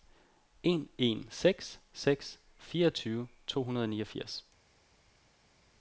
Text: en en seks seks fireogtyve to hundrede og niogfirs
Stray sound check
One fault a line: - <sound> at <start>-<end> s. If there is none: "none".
none